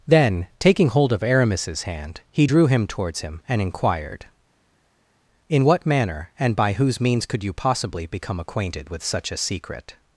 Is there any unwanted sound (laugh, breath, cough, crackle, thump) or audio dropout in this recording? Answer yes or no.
no